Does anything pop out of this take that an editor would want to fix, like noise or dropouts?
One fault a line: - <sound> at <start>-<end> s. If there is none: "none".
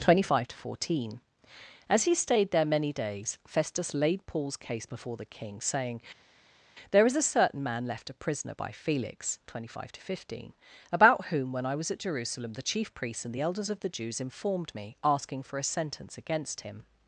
none